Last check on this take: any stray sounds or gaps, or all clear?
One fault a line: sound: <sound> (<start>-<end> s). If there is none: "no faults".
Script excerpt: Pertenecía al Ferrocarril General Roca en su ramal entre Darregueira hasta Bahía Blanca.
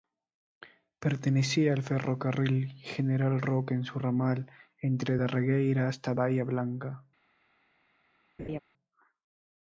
sound: laugh (8.4-8.6 s)